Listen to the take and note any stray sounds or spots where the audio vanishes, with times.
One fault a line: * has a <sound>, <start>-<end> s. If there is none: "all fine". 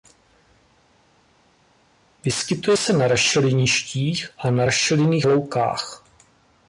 all fine